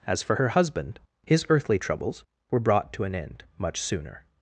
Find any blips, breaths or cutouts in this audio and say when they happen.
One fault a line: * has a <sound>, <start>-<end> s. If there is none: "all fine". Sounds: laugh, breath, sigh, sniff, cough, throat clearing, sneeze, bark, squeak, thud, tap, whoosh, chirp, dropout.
all fine